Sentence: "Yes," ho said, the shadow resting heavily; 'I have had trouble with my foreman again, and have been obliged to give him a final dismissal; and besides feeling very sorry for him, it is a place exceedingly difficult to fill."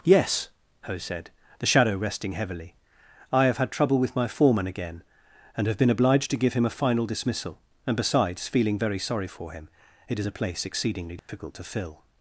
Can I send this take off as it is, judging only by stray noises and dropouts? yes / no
no